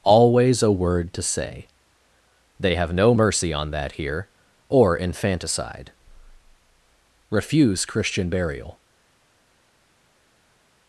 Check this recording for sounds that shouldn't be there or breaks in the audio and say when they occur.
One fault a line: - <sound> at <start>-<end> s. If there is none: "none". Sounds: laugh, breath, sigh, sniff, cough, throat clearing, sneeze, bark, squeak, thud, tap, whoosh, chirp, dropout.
none